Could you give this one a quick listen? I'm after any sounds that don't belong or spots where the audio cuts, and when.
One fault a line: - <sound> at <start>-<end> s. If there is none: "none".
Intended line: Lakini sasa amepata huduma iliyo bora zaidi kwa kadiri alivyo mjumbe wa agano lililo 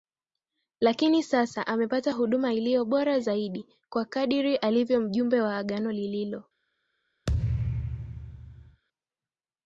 - thud at 7.3-8.8 s